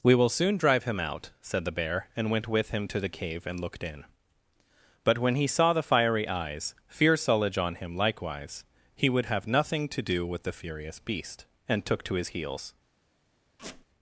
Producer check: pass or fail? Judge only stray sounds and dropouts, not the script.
fail